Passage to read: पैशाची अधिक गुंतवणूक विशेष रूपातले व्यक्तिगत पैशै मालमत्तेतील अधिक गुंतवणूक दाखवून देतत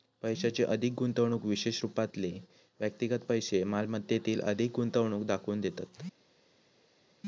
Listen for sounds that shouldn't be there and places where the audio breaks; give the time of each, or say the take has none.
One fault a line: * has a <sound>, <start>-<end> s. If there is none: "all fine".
all fine